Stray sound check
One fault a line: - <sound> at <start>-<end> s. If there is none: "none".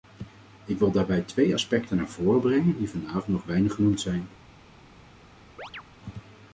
- chirp at 5.6-5.8 s